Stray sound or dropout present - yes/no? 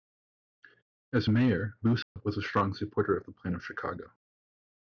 yes